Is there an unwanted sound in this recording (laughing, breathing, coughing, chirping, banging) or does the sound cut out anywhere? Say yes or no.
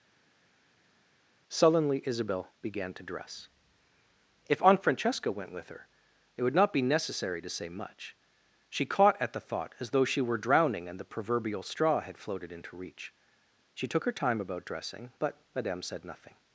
no